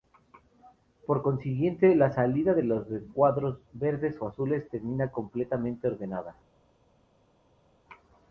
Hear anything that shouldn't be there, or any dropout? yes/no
no